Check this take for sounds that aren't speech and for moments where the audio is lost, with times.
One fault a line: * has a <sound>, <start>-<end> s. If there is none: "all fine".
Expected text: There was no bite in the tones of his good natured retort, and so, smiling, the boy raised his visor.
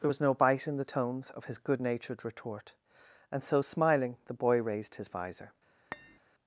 * has a tap, 5.9-6.2 s